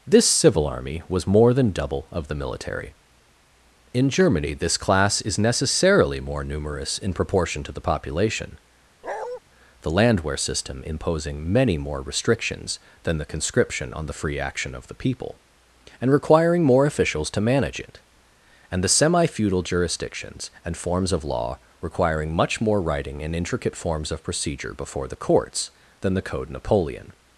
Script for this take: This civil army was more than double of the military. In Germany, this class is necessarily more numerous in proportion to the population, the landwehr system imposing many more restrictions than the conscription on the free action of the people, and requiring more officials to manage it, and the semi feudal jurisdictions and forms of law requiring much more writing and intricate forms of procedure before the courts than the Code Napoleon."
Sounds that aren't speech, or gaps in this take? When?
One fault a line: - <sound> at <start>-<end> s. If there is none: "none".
- bark at 9.0-9.4 s